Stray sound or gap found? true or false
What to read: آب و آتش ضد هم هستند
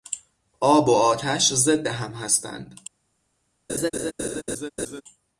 true